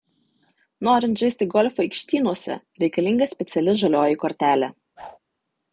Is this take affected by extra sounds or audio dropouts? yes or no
yes